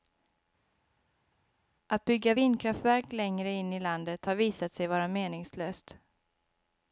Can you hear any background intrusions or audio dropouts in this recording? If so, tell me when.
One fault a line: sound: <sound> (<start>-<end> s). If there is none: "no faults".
no faults